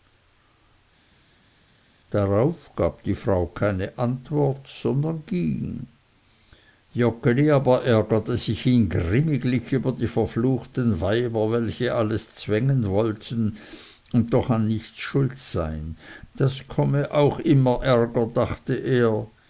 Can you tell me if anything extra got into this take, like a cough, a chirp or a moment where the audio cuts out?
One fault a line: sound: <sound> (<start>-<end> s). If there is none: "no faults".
no faults